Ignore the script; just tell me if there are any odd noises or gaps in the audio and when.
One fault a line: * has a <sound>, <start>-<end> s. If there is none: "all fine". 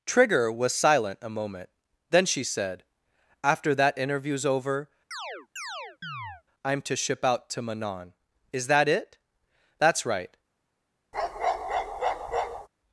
* has a chirp, 5.1-6.4 s
* has a bark, 11.1-12.7 s